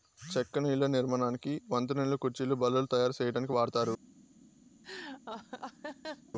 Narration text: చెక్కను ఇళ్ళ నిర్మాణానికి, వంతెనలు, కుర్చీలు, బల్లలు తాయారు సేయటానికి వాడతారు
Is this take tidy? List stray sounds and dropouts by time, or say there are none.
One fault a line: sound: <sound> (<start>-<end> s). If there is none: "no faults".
sound: laugh (4.8-6.3 s)